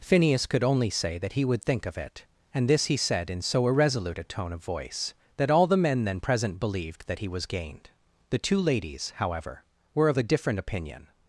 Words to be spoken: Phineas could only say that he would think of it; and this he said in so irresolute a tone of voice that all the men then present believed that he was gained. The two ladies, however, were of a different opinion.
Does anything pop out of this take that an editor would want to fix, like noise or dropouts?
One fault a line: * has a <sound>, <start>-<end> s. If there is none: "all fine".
all fine